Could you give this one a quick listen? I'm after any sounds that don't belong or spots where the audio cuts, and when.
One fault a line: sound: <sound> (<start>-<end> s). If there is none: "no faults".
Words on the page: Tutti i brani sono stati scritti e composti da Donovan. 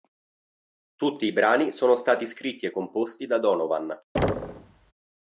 sound: thud (4.1-4.9 s)